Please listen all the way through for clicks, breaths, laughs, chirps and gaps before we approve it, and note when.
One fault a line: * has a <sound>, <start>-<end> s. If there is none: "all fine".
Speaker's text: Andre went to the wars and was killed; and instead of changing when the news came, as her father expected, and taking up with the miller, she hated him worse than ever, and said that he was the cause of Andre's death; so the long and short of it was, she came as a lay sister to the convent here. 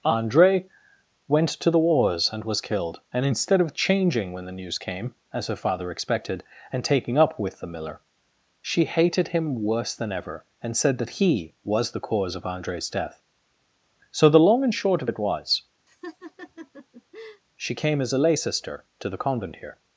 * has a laugh, 15.9-17.4 s